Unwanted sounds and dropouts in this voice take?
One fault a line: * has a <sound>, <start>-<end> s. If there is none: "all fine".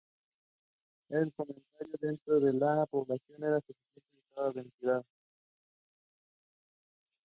all fine